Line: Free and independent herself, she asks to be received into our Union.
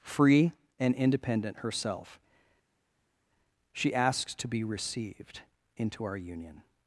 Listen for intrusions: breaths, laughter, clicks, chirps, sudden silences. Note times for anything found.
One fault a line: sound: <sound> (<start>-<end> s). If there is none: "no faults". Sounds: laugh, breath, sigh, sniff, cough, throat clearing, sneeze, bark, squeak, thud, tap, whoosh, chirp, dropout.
no faults